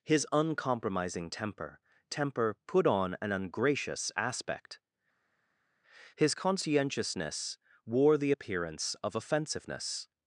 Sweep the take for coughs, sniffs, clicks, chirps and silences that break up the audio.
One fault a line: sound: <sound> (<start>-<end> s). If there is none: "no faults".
no faults